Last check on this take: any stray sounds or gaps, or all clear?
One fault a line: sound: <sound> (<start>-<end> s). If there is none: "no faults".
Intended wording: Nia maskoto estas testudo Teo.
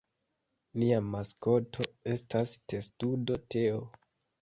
no faults